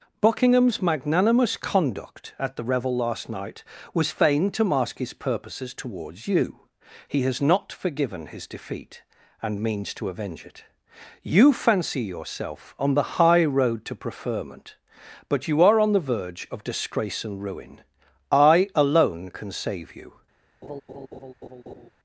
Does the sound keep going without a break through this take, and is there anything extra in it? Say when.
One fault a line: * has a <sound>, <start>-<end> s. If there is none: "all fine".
* has a laugh, 20.6-21.9 s